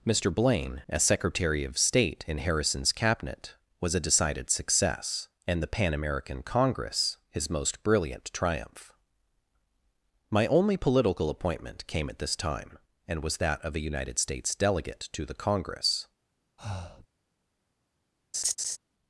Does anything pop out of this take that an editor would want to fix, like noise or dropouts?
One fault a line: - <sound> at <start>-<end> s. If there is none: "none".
- breath at 16.6-17.1 s
- laugh at 18.3-18.8 s